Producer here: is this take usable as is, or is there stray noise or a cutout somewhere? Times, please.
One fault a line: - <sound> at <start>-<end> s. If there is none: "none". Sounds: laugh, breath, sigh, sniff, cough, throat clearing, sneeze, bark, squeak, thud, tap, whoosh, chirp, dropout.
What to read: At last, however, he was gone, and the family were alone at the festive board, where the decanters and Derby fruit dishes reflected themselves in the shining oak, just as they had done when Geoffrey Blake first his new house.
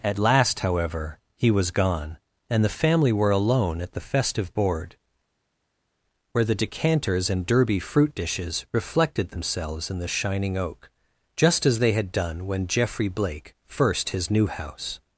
none